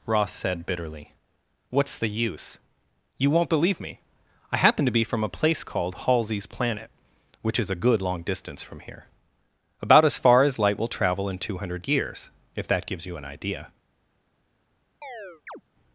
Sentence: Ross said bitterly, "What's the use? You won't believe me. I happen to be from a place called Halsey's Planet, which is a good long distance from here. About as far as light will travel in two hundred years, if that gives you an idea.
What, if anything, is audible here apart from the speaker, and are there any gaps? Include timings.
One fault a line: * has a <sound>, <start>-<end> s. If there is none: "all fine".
* has a chirp, 15.0-15.6 s